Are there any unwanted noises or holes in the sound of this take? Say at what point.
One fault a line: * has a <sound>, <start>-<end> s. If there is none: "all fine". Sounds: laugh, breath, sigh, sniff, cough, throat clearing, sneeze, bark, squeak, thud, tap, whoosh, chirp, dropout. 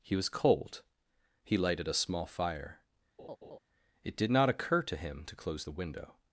* has a laugh, 3.2-3.6 s